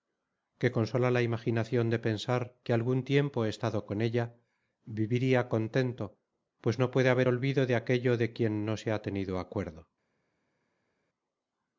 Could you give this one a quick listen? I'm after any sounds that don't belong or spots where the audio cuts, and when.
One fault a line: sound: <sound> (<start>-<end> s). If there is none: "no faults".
no faults